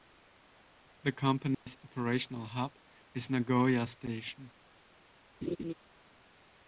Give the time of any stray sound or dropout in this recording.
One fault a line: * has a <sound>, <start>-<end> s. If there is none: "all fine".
* has a dropout, 1.5-1.7 s
* has a laugh, 5.4-5.7 s